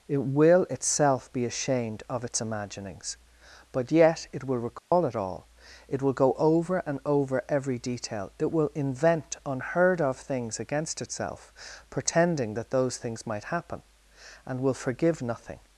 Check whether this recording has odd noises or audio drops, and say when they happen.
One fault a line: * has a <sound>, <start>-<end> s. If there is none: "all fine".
* has a dropout, 4.8-4.9 s